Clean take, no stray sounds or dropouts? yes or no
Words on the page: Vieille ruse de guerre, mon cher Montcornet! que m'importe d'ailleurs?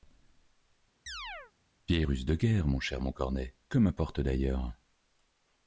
no